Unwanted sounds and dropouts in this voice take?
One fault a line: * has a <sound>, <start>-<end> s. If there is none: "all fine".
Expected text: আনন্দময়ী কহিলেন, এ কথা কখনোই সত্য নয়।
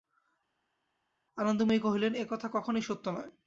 all fine